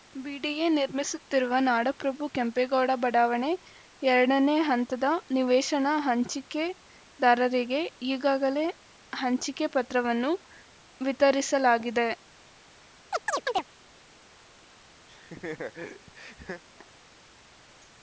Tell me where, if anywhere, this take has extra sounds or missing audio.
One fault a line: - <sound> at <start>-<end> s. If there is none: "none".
- chirp at 13.1-13.6 s
- laugh at 15.1-16.6 s